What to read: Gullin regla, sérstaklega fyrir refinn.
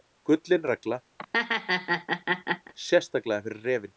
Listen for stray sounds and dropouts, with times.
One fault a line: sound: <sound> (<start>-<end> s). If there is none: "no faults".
sound: laugh (1.2-2.7 s)